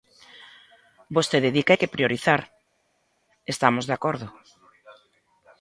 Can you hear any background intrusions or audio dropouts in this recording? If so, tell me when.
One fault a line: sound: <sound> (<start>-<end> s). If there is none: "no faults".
no faults